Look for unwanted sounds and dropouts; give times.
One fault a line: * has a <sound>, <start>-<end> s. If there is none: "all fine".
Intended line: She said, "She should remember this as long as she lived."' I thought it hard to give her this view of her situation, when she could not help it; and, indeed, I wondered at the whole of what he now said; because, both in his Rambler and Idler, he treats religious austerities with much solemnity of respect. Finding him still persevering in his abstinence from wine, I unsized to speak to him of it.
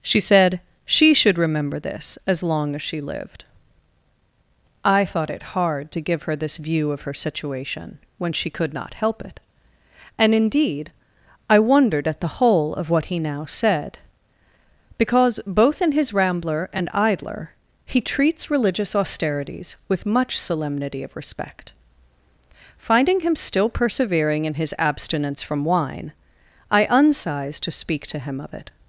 all fine